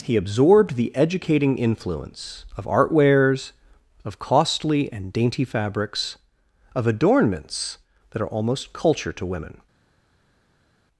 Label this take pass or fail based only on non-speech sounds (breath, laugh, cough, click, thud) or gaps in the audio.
pass